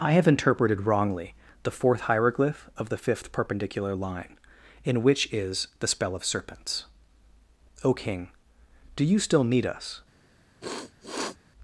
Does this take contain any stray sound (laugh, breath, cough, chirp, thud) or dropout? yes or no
yes